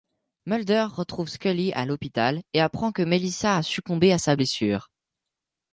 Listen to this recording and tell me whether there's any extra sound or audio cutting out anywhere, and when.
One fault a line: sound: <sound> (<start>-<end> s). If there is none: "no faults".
no faults